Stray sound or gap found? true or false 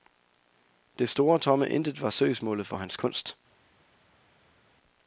false